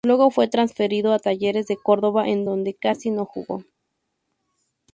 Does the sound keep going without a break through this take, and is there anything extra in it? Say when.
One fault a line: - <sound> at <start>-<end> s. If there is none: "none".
none